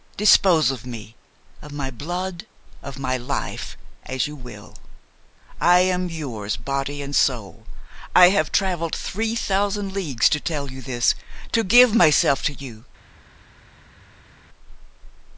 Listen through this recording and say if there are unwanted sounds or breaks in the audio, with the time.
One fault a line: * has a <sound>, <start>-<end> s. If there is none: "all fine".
all fine